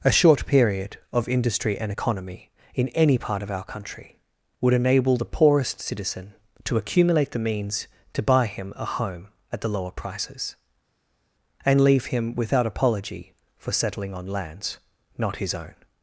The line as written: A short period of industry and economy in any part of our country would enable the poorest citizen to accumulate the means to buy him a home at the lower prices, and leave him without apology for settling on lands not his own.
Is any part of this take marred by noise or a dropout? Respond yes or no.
no